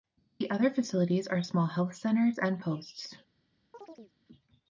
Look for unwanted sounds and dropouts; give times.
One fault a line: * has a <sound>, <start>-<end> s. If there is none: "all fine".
* has a chirp, 3.7-4.1 s